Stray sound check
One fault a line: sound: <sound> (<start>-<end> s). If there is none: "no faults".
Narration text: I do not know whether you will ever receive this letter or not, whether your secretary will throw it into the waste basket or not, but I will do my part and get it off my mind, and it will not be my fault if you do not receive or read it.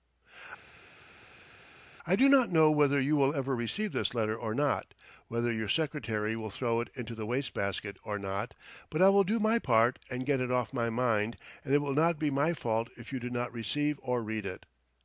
no faults